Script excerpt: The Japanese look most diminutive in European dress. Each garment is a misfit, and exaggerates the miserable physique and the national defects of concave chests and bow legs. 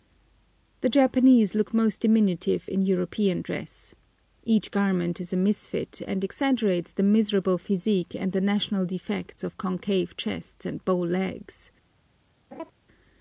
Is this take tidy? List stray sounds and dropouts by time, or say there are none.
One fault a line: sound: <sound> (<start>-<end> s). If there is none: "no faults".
sound: laugh (12.5-12.7 s)